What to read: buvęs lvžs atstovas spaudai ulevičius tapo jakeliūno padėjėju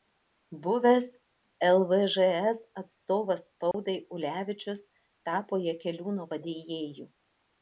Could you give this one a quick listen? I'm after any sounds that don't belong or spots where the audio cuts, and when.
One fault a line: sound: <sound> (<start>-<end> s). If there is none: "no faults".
sound: dropout (3.7-3.7 s)